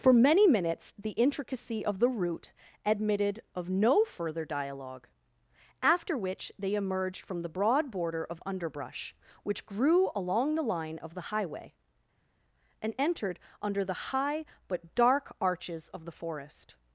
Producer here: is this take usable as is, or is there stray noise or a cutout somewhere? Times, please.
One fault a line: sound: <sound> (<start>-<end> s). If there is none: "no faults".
no faults